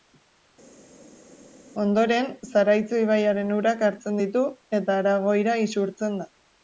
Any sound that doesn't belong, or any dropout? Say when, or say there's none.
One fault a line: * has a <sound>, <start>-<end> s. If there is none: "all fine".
all fine